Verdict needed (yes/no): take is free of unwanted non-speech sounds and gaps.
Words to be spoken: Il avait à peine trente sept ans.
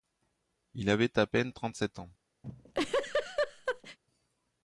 no